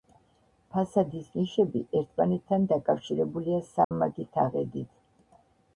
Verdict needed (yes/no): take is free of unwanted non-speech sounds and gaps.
no